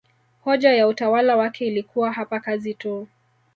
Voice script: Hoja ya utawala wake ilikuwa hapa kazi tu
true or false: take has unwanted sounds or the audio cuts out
false